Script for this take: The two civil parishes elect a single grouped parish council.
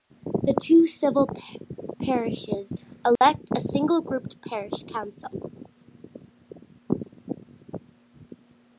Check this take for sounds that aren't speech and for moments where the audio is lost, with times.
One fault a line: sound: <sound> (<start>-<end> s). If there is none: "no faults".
sound: dropout (3.2-3.2 s)